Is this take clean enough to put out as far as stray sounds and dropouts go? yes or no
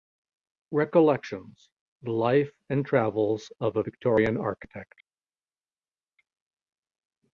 yes